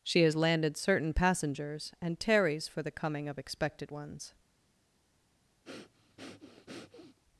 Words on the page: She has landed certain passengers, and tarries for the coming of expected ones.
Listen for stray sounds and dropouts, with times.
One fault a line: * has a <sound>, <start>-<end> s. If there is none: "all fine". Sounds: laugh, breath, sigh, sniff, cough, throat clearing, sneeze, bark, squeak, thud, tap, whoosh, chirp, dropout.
* has a breath, 5.6-7.2 s